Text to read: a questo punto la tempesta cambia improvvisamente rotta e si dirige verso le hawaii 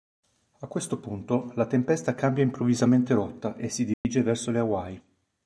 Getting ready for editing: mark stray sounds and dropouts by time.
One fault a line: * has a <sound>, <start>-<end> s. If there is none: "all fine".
* has a dropout, 3.9-4.0 s